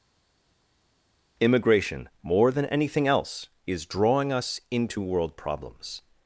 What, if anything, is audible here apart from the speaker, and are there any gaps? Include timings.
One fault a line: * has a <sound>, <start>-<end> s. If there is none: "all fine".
all fine